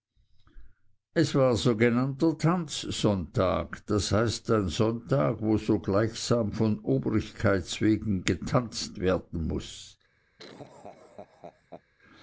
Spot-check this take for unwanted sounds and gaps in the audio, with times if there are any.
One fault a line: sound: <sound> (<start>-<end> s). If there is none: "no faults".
sound: laugh (10.4-11.8 s)